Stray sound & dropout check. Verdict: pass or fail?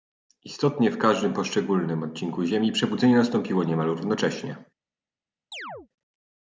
fail